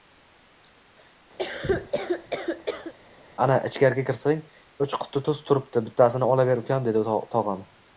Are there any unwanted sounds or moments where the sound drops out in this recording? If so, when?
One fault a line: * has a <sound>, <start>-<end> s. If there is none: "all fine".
* has a cough, 1.4-2.9 s